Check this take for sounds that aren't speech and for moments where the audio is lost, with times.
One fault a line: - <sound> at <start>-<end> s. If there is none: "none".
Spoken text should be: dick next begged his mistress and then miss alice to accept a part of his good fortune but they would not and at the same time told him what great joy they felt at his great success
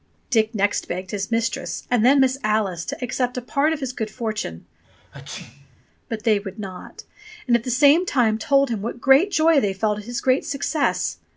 - sneeze at 4.8-5.8 s